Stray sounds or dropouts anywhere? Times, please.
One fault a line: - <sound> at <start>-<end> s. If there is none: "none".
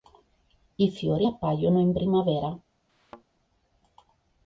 - thud at 2.9-3.2 s